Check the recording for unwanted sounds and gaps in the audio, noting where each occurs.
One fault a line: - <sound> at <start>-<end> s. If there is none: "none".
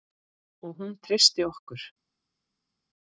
none